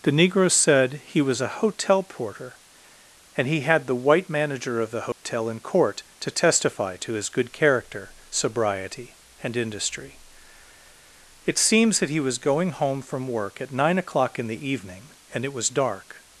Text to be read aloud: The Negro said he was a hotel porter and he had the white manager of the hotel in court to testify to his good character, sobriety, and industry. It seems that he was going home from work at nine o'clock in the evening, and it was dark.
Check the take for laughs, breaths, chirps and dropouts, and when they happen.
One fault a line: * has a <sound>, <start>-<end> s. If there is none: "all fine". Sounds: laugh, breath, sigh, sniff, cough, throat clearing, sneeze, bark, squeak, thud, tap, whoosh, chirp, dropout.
* has a dropout, 5.1-5.2 s